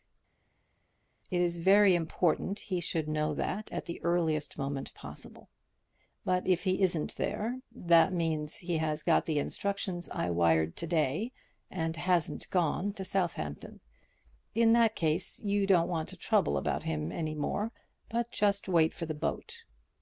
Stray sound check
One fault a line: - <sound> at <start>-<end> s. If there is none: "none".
none